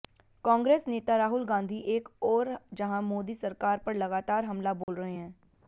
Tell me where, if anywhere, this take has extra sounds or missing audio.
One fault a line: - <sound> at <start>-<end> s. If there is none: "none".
- dropout at 4.8-4.9 s